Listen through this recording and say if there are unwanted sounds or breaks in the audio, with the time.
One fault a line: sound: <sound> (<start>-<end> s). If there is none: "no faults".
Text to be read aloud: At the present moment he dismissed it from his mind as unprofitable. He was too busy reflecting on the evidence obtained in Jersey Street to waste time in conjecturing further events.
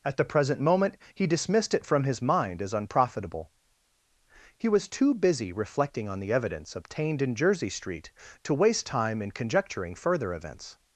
no faults